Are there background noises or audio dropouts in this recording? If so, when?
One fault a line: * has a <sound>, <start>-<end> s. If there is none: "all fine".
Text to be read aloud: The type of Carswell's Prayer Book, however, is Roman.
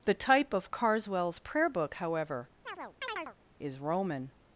* has a chirp, 2.7-3.4 s